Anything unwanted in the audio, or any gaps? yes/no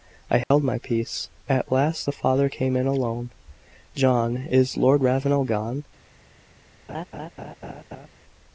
yes